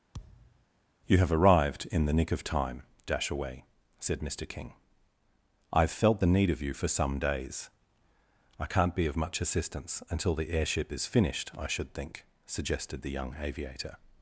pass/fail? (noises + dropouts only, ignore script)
fail